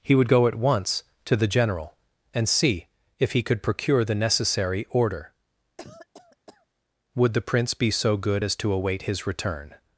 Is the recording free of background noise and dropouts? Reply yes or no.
no